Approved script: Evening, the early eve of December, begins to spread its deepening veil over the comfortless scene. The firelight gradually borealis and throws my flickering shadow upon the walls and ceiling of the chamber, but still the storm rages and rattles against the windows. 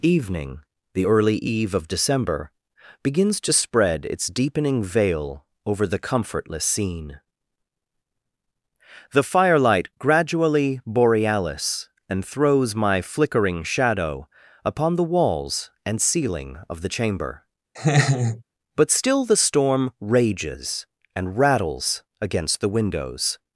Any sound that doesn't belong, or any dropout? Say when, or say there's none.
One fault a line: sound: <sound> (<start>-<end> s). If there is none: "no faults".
sound: laugh (17.8-18.4 s)